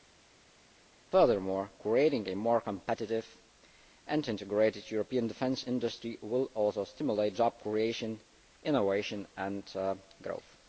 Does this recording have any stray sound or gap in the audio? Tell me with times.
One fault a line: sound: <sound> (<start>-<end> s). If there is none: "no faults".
no faults